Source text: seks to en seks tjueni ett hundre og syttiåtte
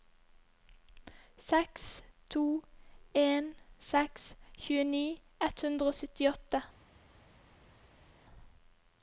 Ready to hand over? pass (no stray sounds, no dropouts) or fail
pass